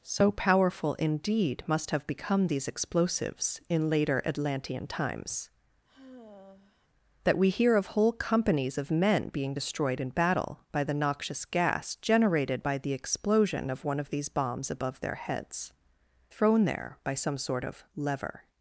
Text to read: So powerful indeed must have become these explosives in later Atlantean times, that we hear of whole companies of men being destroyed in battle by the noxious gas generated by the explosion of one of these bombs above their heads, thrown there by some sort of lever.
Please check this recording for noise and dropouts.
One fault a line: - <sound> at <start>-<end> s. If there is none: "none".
- sigh at 5.8-6.9 s